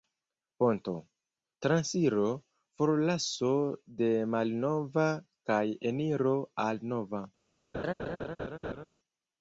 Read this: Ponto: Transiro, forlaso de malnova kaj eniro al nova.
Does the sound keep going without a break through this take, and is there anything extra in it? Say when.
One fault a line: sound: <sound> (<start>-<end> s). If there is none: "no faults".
sound: laugh (7.7-8.9 s)